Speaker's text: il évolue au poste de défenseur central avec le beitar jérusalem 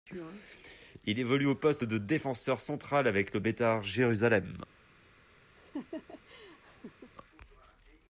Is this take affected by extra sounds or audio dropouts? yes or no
yes